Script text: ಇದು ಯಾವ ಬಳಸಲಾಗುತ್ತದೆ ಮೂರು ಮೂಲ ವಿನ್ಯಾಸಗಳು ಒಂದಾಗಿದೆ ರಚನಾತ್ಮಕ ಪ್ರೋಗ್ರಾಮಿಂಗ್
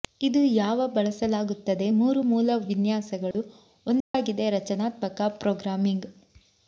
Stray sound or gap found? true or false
true